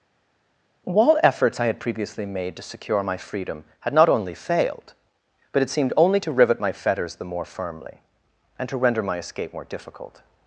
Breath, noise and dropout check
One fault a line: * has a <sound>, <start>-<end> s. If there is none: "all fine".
all fine